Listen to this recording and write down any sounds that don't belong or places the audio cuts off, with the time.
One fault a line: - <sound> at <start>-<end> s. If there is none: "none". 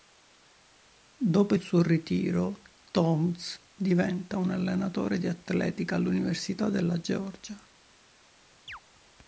- chirp at 8.7-8.8 s